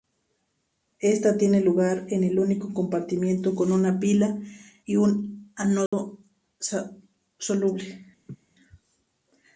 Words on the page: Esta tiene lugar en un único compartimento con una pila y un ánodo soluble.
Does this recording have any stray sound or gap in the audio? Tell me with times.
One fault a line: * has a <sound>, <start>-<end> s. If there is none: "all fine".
* has a dropout, 5.9-5.9 s
* has a laugh, 8.3-8.4 s